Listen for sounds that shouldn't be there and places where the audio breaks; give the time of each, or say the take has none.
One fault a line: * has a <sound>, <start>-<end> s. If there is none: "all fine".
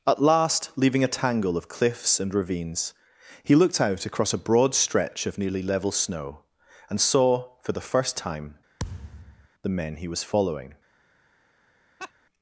* has a thud, 8.8-9.5 s
* has a laugh, 12.0-12.1 s